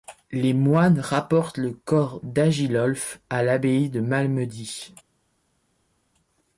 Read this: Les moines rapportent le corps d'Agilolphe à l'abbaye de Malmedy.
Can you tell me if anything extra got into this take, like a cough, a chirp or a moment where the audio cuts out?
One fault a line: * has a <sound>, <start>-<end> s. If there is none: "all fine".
all fine